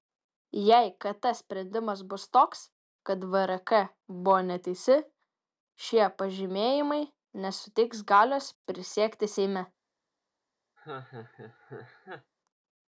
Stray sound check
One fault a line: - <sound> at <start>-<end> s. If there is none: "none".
- laugh at 10.8-12.3 s